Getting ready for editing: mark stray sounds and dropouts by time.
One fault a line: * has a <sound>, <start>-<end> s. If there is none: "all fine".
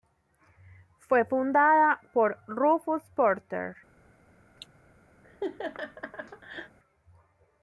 * has a cough, 4.6-4.7 s
* has a laugh, 5.2-6.8 s